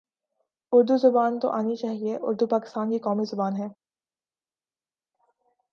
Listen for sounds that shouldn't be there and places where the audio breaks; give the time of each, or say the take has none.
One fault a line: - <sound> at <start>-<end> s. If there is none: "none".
none